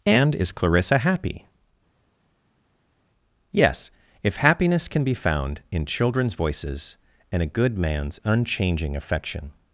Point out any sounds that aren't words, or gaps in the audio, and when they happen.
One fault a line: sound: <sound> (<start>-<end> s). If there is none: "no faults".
no faults